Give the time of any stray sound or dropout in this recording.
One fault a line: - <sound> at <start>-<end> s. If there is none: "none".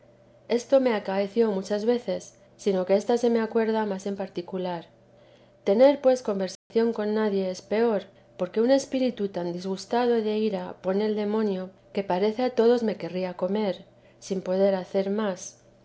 - dropout at 6.6-6.7 s